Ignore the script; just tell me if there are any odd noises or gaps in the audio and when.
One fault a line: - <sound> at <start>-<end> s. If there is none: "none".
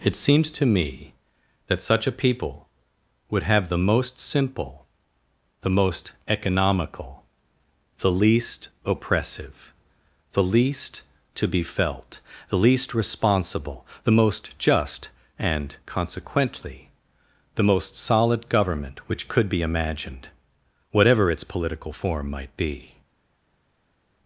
none